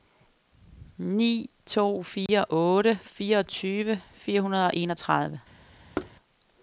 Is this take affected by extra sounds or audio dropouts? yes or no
yes